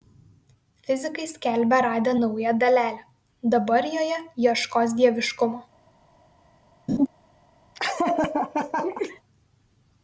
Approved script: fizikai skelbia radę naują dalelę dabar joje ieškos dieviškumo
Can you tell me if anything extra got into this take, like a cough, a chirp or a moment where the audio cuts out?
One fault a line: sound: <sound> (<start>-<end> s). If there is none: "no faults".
sound: laugh (6.9-7.1 s)
sound: laugh (7.7-9.2 s)